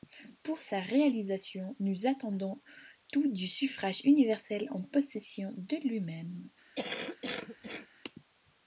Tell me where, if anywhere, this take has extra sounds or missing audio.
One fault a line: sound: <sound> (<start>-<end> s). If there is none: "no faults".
sound: cough (6.8-7.9 s)